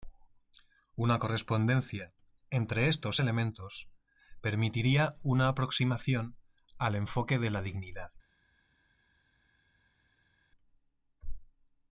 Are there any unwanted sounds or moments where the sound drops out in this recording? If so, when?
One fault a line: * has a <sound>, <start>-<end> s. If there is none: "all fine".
all fine